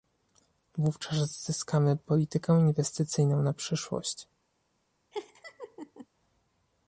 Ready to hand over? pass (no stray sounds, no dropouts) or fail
fail